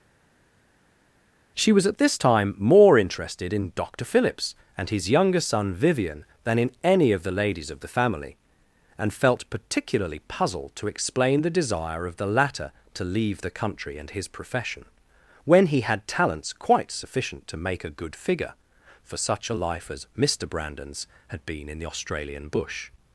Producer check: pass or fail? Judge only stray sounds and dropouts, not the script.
pass